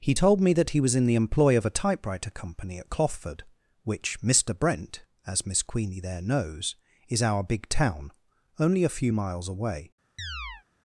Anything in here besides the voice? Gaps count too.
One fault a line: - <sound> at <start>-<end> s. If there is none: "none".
- chirp at 10.2-10.6 s